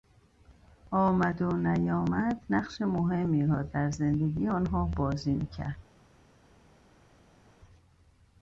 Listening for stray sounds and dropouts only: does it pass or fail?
pass